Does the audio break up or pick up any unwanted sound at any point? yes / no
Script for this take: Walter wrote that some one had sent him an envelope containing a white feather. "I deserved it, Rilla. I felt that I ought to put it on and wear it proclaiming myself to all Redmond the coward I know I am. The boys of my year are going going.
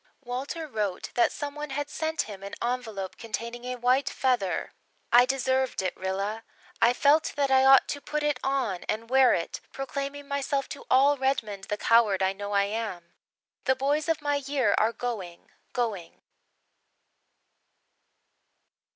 no